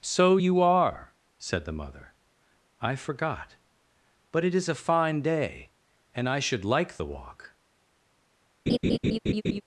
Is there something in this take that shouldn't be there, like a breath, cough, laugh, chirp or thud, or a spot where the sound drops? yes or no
yes